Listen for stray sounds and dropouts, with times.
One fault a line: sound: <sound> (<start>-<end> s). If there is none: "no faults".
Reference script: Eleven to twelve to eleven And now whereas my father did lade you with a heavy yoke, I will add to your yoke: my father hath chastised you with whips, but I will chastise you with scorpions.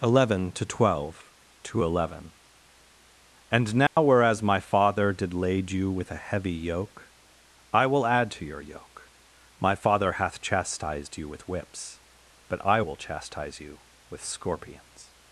sound: dropout (3.9-4.0 s)